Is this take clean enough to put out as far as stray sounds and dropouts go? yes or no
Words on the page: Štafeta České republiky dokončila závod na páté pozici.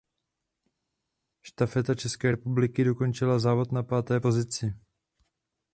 yes